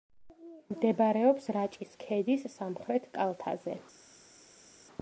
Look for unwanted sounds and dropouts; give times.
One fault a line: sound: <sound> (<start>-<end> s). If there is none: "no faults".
no faults